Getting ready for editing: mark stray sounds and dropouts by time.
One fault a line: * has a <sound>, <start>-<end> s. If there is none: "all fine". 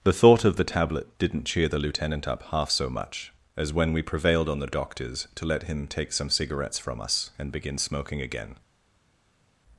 all fine